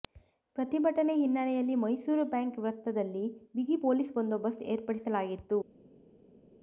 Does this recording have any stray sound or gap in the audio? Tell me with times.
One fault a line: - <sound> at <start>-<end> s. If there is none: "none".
none